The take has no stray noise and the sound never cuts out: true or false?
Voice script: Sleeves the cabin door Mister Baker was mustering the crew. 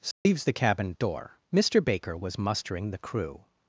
false